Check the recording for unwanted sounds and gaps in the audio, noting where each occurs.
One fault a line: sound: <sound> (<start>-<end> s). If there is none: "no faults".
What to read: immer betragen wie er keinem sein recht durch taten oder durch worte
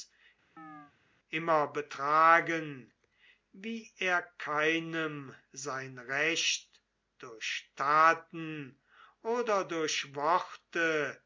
sound: chirp (0.6-0.9 s)